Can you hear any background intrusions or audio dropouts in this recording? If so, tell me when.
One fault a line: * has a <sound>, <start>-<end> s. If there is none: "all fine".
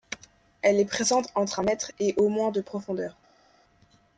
all fine